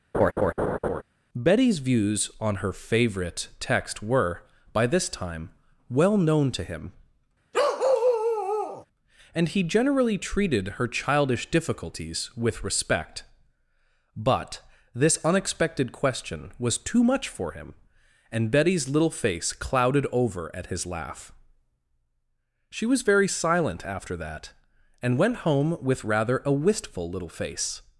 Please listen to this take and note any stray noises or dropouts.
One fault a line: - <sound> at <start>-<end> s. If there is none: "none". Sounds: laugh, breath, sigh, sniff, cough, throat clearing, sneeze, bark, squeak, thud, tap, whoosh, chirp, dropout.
- laugh at 0.1-1.0 s
- bark at 7.5-8.9 s